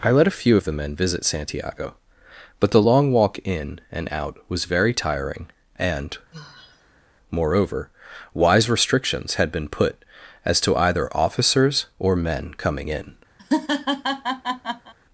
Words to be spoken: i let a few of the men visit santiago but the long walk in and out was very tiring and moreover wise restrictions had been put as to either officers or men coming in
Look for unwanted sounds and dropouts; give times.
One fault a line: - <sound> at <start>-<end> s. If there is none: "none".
- sigh at 6.3-7.0 s
- laugh at 13.4-14.9 s